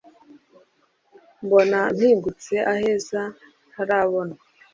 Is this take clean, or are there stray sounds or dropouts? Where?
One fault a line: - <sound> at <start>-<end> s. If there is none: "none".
none